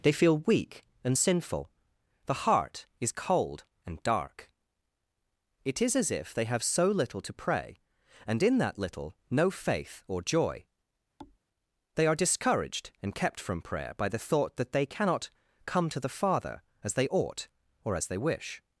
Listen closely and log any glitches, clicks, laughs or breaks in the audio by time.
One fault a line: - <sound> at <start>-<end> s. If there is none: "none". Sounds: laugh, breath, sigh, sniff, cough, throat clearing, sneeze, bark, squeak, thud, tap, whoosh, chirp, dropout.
- thud at 11.2-11.4 s